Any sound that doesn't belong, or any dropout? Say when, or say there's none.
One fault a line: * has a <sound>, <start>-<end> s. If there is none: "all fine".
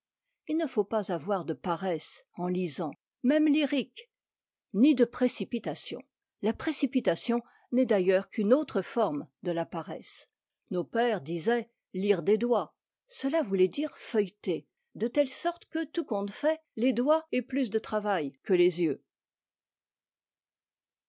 all fine